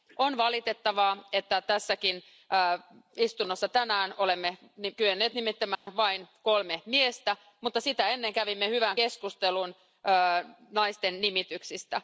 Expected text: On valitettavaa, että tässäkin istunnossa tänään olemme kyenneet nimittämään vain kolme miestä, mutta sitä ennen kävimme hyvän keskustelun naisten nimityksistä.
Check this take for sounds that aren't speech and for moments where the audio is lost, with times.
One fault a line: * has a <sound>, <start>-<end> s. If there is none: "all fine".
* has a dropout, 5.7-5.9 s